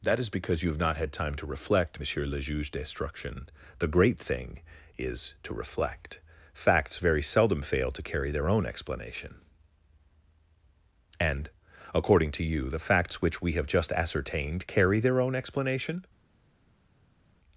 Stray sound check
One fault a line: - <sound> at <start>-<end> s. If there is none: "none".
none